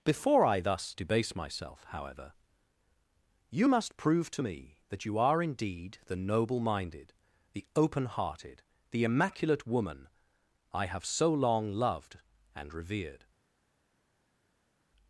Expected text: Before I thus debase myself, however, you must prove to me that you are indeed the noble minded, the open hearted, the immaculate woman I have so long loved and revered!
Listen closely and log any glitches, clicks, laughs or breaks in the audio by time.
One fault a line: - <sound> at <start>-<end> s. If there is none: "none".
none